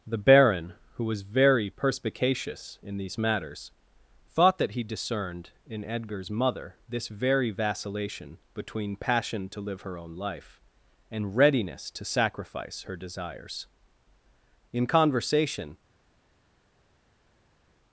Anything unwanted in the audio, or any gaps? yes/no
no